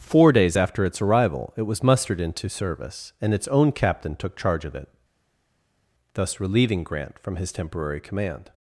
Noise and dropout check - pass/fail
pass